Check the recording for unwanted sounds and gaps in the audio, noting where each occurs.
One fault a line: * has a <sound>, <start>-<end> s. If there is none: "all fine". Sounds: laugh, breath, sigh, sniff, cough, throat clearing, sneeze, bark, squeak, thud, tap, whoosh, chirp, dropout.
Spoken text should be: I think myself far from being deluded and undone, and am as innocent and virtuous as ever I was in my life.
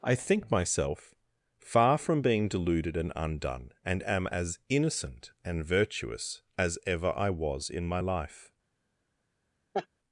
* has a laugh, 9.7-9.9 s